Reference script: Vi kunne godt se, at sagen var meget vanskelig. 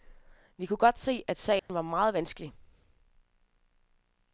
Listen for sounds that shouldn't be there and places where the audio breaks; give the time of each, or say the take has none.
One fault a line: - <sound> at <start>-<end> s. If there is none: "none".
- dropout at 1.6-1.7 s